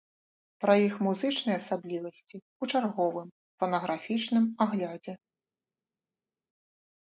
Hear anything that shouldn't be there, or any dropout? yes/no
no